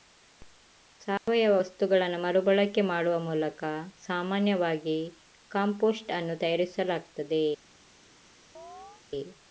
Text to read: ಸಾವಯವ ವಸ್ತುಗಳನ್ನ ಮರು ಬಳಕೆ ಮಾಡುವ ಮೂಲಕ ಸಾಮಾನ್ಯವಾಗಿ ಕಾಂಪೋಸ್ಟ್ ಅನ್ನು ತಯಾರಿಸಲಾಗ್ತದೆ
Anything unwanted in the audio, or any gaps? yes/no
yes